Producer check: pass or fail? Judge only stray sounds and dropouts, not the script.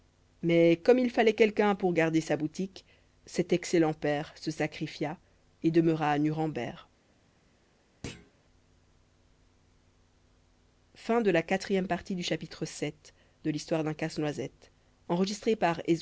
fail